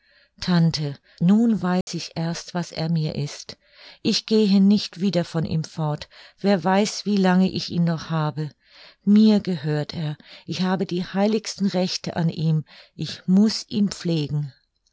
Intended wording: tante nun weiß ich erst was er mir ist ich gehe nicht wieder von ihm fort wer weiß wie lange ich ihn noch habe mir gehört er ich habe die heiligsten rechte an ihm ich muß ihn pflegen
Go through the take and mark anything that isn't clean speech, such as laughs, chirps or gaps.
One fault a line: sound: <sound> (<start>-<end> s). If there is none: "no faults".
sound: dropout (1.8-1.9 s)